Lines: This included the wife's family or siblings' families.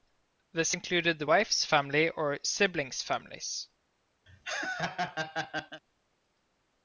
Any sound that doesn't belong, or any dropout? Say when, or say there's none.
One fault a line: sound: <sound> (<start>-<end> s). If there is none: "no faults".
sound: laugh (4.3-5.8 s)